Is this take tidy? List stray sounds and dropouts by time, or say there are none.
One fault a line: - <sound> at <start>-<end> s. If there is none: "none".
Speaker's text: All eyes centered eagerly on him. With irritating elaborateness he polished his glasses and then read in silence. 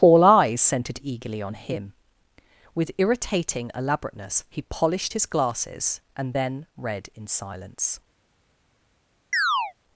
- chirp at 9.3-9.7 s